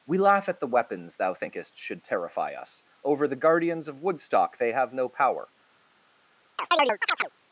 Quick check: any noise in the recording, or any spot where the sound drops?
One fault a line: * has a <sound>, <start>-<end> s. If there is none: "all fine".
* has a chirp, 6.6-7.3 s